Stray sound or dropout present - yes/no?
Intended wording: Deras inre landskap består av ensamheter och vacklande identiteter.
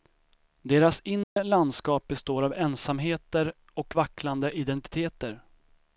yes